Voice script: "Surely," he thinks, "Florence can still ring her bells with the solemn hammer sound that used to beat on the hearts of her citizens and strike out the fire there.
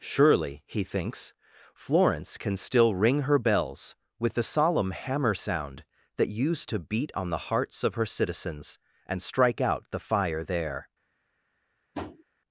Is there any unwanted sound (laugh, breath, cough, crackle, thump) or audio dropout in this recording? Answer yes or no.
yes